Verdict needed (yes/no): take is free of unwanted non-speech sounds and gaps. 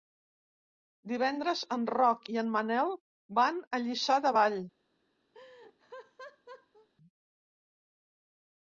no